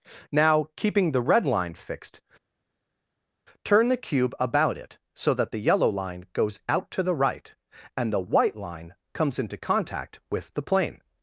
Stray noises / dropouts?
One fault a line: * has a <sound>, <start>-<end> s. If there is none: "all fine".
all fine